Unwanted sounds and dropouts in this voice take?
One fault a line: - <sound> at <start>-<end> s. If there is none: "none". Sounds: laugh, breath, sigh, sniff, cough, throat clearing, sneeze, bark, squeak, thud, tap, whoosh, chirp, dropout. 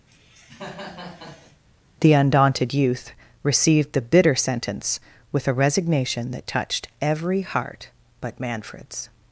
- cough at 0.1-1.6 s